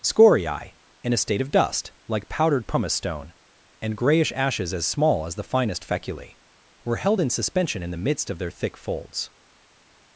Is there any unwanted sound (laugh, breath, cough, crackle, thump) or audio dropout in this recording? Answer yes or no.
no